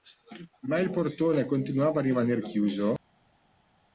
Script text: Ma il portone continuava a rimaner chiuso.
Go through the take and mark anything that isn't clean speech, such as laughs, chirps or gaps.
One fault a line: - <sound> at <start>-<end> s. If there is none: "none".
none